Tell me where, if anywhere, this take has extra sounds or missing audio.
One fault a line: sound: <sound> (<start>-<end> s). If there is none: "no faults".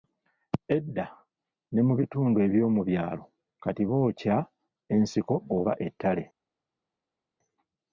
no faults